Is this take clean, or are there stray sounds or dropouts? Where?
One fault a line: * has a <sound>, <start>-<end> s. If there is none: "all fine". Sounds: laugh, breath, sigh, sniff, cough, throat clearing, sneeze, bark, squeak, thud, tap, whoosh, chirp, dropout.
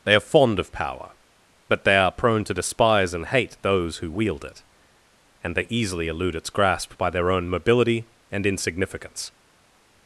all fine